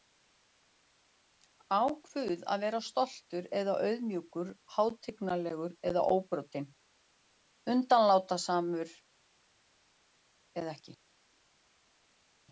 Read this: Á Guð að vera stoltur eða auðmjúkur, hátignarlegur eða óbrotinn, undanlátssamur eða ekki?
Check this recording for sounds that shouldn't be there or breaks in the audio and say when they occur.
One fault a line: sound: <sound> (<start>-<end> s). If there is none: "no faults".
no faults